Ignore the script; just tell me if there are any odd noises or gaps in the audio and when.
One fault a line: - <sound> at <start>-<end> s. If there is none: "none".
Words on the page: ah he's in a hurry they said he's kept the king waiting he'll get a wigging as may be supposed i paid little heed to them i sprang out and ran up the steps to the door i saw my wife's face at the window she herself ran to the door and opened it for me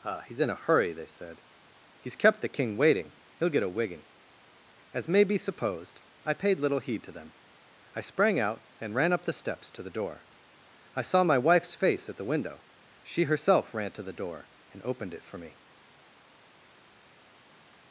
none